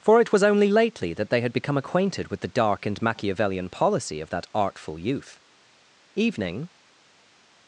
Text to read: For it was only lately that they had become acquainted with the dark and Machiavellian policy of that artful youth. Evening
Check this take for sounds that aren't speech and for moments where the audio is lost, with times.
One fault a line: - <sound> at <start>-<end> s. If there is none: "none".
none